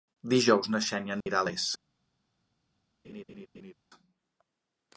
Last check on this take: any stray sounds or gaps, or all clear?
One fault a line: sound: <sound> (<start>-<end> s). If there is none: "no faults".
sound: dropout (1.2-1.3 s)
sound: laugh (3.0-3.7 s)